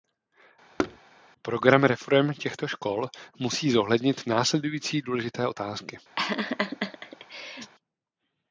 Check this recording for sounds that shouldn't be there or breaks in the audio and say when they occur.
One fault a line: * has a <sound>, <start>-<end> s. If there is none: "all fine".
* has a thud, 0.8-1.0 s
* has a laugh, 6.2-7.7 s